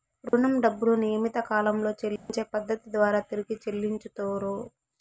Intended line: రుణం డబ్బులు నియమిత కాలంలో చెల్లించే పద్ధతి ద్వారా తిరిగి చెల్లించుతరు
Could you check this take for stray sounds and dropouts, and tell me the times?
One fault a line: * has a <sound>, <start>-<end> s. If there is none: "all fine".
* has a dropout, 0.3-0.3 s
* has a dropout, 2.2-2.3 s